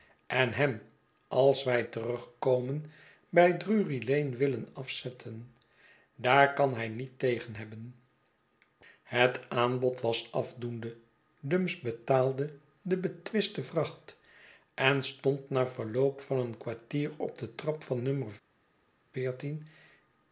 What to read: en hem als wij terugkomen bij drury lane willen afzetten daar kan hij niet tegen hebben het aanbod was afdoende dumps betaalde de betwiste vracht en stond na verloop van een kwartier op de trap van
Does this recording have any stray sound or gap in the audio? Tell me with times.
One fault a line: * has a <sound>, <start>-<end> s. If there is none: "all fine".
all fine